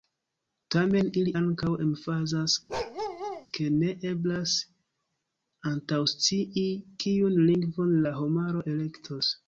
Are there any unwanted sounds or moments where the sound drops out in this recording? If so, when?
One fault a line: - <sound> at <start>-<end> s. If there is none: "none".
- bark at 2.7-3.5 s